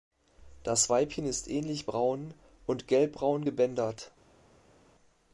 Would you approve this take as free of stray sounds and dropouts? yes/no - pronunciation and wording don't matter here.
yes